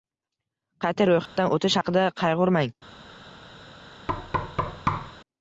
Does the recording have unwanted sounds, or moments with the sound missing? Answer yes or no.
yes